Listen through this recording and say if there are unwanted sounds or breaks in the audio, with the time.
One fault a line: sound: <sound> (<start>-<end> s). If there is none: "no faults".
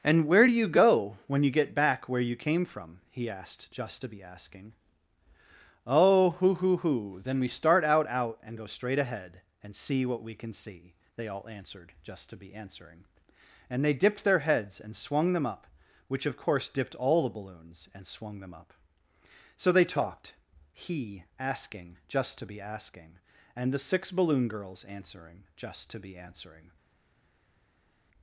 no faults